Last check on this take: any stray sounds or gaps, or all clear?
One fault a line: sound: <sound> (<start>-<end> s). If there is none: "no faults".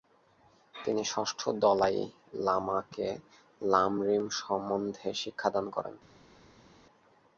no faults